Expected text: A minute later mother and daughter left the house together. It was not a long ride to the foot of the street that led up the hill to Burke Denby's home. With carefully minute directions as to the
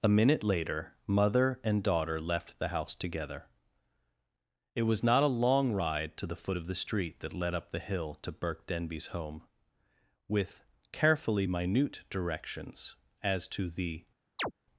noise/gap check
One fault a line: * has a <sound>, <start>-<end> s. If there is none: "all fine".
* has a chirp, 14.4-14.5 s